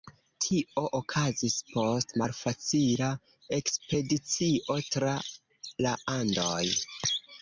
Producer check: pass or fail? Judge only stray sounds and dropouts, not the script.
pass